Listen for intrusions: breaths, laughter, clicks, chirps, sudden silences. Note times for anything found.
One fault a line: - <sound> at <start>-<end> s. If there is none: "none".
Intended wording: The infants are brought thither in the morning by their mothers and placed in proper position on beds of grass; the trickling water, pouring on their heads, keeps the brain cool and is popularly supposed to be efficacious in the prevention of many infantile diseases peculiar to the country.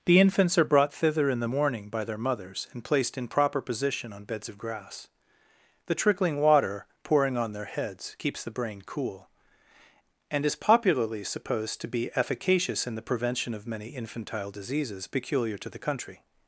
none